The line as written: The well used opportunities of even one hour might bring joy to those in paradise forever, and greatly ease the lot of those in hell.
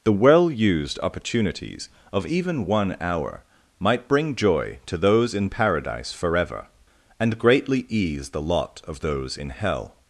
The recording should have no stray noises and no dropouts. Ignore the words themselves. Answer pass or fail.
pass